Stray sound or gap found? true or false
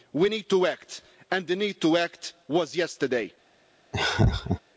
true